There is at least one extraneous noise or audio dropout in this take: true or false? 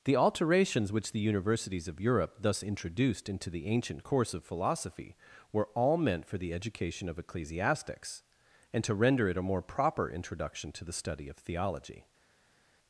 false